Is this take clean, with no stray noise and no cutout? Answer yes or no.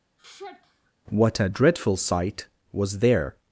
no